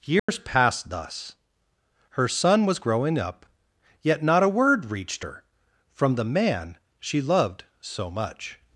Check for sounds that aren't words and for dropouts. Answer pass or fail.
fail